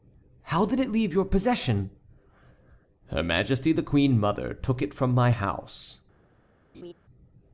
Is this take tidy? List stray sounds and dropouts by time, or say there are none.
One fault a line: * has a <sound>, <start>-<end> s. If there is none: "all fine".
* has a laugh, 6.7-6.9 s